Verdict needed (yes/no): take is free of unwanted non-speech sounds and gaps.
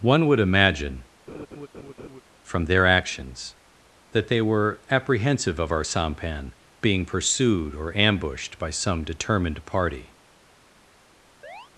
no